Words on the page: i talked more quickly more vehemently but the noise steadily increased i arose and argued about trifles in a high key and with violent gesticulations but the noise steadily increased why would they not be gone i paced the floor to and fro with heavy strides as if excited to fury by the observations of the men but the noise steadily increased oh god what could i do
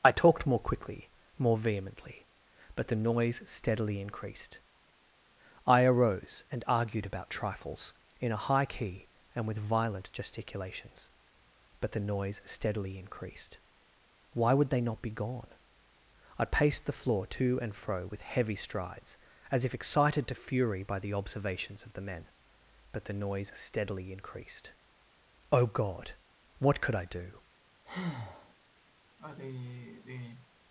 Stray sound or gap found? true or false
true